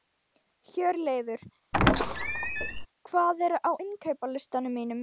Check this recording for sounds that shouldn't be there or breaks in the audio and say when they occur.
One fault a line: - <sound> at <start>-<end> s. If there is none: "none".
- squeak at 1.7-2.9 s